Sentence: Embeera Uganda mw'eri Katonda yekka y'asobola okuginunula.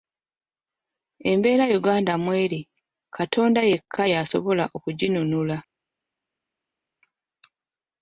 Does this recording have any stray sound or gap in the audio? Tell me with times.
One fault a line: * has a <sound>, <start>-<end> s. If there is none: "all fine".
all fine